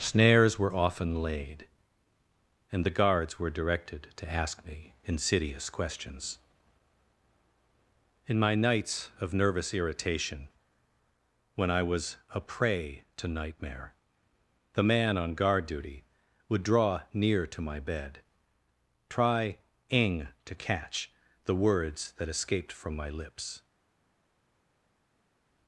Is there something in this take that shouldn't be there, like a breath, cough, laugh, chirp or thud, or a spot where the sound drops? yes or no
no